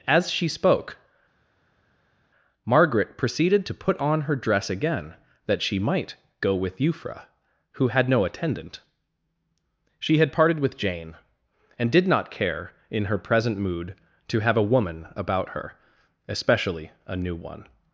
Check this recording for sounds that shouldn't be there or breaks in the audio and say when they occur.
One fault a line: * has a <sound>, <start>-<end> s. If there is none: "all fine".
all fine